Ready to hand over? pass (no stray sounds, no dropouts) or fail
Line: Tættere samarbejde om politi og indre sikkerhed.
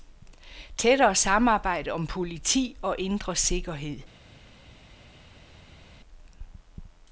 pass